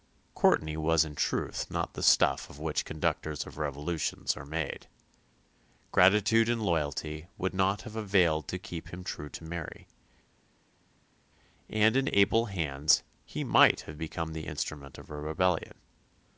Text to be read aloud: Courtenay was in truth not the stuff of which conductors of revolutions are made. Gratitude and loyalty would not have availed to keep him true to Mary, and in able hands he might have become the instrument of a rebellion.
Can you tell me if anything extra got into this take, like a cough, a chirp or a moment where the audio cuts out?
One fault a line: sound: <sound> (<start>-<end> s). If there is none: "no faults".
no faults